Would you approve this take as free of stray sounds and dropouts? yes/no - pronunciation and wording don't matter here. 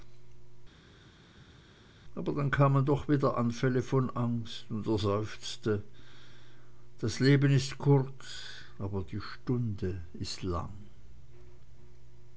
yes